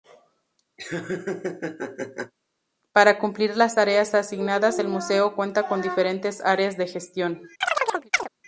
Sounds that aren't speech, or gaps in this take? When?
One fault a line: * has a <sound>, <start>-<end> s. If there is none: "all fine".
* has a laugh, 0.8-2.3 s
* has a chirp, 7.6-8.3 s